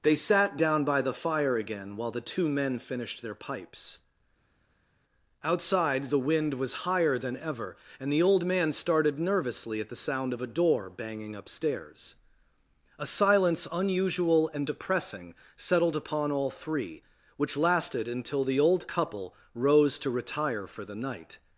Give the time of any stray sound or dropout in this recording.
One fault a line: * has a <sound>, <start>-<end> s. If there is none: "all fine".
all fine